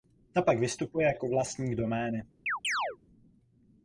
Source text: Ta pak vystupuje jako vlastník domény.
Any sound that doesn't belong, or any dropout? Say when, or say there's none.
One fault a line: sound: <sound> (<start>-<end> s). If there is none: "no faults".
sound: chirp (2.5-3.0 s)